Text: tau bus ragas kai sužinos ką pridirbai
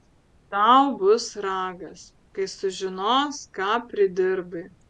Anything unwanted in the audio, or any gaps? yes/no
no